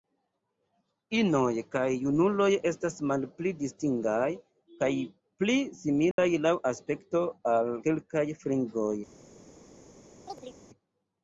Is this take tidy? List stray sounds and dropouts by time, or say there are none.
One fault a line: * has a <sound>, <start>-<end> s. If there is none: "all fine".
* has a dropout, 6.1-6.2 s
* has a chirp, 10.2-10.6 s